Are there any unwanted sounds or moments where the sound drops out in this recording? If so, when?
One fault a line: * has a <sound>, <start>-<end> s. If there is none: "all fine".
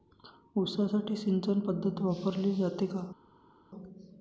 all fine